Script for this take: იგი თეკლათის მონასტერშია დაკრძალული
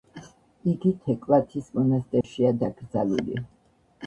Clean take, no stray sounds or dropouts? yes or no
no